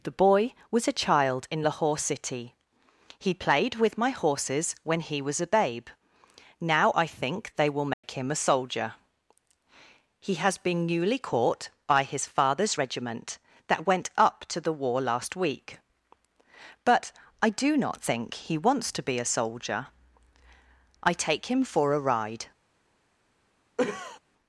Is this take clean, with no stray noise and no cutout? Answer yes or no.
no